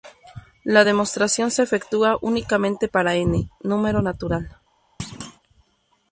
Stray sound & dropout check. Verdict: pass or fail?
fail